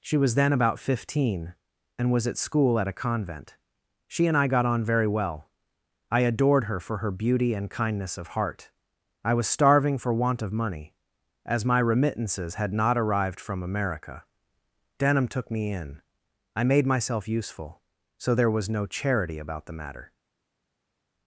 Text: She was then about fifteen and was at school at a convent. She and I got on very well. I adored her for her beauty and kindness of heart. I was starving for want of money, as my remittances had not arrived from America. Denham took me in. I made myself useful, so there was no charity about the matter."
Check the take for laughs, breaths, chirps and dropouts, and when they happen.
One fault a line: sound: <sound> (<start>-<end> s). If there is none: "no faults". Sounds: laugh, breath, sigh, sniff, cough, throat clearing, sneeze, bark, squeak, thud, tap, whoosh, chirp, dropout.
no faults